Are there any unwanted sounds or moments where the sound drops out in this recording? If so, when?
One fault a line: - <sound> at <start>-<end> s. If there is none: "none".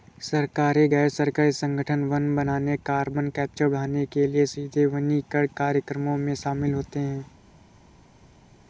none